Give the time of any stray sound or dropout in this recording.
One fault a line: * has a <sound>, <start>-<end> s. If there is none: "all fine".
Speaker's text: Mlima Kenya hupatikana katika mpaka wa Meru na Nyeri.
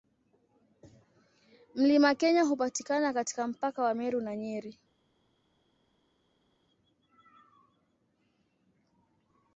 all fine